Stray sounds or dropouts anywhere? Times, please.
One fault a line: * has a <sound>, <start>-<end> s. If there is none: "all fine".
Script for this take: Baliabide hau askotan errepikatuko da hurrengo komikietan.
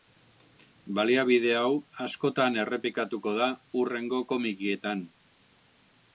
all fine